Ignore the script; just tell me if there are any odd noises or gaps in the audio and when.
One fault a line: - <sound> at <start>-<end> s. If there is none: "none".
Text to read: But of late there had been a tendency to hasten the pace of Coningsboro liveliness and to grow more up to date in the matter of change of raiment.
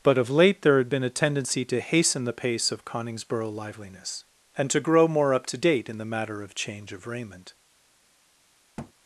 - thud at 8.8-8.9 s